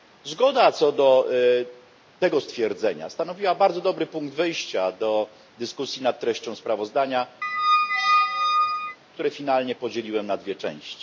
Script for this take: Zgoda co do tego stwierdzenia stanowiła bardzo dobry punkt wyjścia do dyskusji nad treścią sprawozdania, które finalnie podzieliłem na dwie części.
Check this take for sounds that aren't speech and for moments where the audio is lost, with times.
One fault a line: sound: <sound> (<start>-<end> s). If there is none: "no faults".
sound: squeak (7.4-9.0 s)